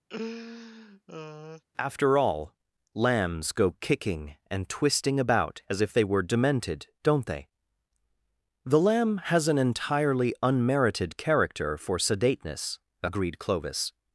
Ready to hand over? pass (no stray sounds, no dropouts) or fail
fail